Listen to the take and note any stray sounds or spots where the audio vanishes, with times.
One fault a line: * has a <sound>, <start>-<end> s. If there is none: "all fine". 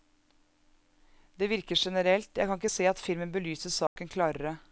* has a dropout, 3.9-4.0 s